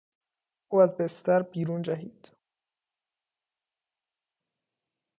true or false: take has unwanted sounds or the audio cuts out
false